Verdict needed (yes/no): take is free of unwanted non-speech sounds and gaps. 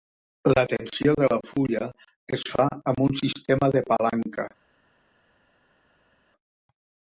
yes